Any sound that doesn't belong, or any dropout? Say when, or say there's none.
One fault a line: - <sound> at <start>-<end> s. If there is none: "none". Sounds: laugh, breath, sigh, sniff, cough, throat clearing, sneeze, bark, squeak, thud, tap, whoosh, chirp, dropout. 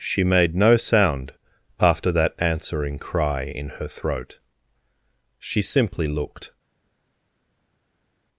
none